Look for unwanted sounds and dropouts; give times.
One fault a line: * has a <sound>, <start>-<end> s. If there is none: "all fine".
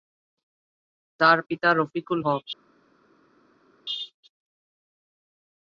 all fine